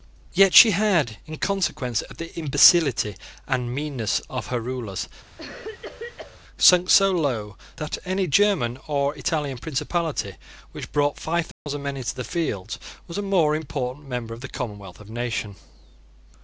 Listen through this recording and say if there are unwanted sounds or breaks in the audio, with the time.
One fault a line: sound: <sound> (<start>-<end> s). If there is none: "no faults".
sound: cough (5.4-6.4 s)
sound: dropout (11.5-11.7 s)